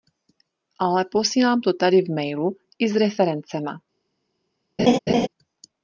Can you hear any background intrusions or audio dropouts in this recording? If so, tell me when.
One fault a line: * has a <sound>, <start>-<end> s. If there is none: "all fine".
* has a laugh, 4.8-5.3 s